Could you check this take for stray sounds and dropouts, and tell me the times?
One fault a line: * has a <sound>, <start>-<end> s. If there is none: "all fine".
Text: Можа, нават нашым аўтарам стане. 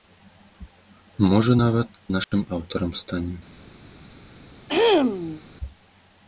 * has a dropout, 2.2-2.3 s
* has a throat clearing, 4.7-5.4 s